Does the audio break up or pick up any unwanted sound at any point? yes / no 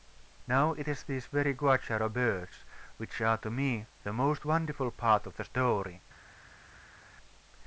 no